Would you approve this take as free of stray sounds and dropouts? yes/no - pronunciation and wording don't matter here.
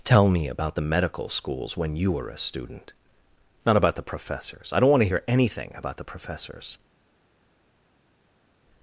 yes